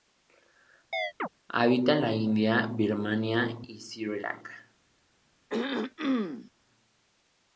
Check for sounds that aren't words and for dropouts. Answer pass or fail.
fail